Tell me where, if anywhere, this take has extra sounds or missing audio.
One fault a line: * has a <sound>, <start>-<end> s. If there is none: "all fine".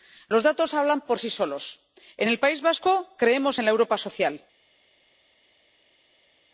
all fine